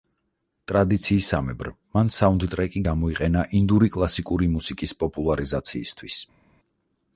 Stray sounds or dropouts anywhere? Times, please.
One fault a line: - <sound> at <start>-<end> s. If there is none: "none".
none